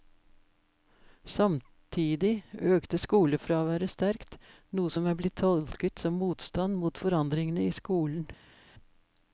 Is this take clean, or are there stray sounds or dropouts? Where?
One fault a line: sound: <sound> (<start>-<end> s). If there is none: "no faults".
no faults